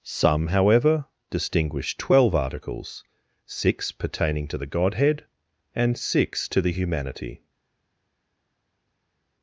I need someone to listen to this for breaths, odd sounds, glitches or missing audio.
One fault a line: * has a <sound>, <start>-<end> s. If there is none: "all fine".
all fine